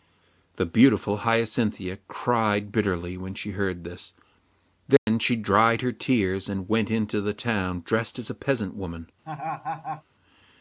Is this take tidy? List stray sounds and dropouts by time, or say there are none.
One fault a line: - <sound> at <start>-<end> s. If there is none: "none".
- dropout at 5.0-5.1 s
- laugh at 9.2-10.0 s